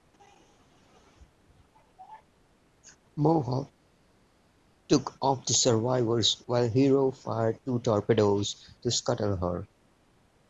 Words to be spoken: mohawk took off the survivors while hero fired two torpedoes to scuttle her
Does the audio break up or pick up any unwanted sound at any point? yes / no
no